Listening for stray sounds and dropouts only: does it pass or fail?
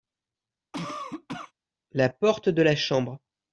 fail